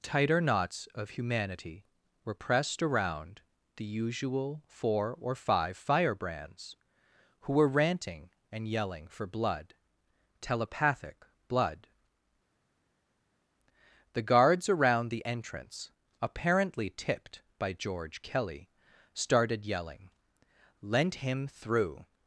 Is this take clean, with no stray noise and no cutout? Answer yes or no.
yes